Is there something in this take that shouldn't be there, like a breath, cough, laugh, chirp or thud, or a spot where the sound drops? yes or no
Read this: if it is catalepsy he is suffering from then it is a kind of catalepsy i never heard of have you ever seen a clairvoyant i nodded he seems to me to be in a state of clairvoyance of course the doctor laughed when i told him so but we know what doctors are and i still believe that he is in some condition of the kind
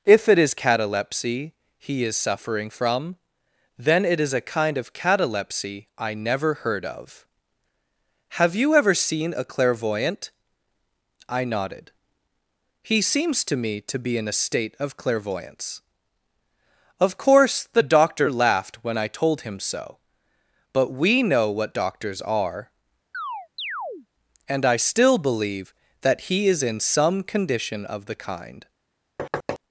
yes